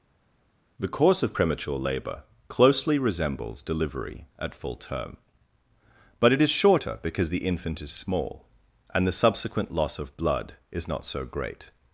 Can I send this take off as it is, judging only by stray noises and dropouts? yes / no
yes